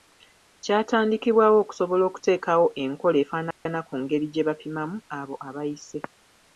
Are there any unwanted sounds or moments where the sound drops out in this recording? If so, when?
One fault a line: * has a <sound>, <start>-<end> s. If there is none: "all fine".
* has a dropout, 3.5-3.7 s